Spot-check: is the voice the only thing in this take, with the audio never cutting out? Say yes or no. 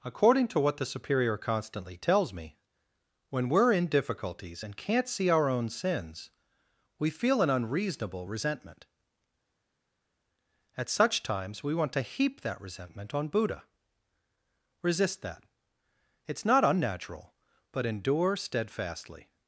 yes